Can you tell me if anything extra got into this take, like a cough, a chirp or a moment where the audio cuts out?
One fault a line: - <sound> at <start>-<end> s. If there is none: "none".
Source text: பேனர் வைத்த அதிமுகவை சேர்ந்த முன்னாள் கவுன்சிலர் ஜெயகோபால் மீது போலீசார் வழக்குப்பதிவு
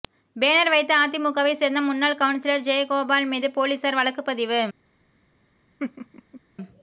- laugh at 5.8-6.4 s